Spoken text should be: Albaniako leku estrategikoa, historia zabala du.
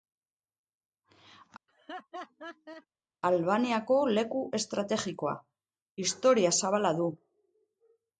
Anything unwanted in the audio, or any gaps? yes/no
yes